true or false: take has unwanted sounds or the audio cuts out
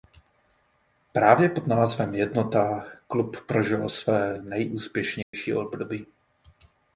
true